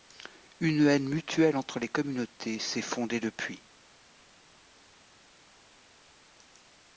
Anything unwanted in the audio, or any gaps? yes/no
no